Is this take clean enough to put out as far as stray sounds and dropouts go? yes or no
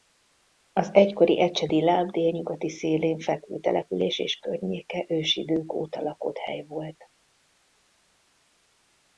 yes